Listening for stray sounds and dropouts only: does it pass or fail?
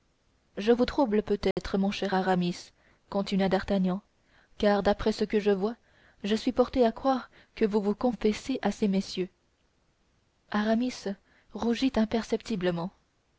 fail